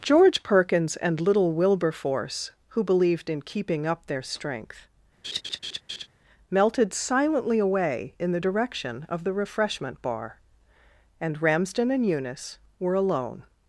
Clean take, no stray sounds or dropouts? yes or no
no